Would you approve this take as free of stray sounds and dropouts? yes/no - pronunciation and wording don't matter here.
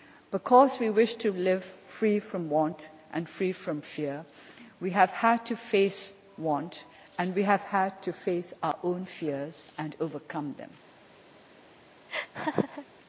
no